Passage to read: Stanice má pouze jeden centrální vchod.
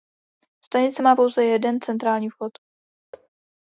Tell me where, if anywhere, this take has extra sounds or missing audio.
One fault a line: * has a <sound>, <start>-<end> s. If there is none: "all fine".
* has a thud, 3.1-3.3 s